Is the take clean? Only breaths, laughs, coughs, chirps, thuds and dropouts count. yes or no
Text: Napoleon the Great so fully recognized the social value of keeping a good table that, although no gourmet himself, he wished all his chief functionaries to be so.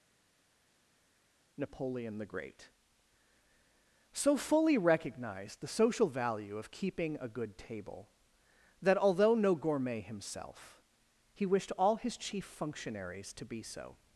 yes